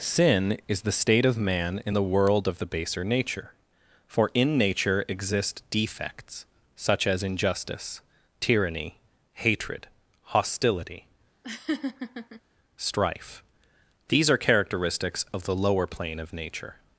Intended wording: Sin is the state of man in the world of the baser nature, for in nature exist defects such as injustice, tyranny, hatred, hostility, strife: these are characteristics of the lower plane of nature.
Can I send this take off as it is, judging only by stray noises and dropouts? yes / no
no